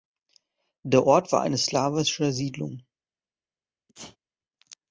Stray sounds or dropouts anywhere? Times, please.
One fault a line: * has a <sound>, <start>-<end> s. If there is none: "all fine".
* has a sneeze, 3.9-4.2 s